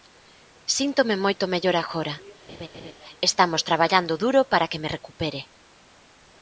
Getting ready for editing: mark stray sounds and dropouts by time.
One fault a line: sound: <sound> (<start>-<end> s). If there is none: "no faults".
sound: laugh (2.5-2.9 s)